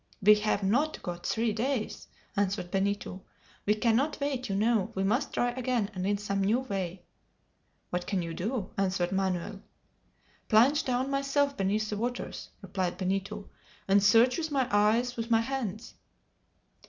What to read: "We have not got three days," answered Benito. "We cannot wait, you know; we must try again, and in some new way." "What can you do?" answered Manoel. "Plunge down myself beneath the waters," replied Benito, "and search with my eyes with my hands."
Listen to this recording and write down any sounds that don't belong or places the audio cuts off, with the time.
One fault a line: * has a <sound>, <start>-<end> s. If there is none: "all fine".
all fine